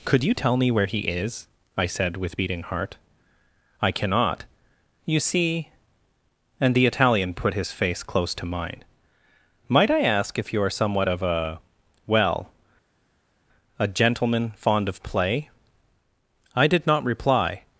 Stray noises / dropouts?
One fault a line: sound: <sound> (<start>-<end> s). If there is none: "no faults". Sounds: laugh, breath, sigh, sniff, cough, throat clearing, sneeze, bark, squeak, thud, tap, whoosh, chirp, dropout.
no faults